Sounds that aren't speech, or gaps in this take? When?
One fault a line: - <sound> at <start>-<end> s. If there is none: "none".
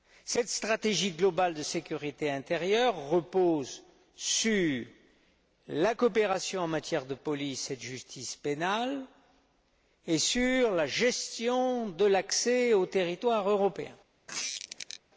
- squeak at 14.3-15.0 s